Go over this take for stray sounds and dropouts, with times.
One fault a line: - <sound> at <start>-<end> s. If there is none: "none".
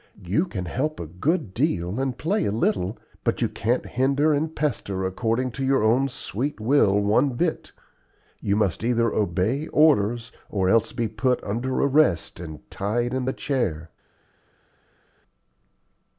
none